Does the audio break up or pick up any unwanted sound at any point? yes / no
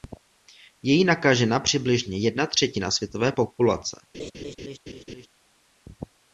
yes